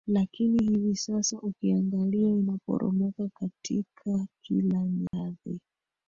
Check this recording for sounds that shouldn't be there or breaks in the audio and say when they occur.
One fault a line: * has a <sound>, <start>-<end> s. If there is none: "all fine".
* has a dropout, 5.1-5.1 s